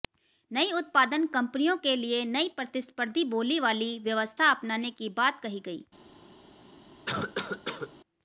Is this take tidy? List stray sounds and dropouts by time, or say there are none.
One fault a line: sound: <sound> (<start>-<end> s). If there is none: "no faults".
sound: cough (7.1-8.0 s)